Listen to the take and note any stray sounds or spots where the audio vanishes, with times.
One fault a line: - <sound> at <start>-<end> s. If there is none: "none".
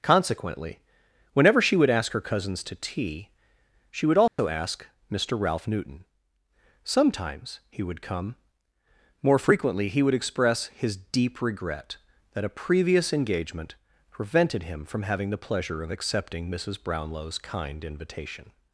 - dropout at 4.3-4.4 s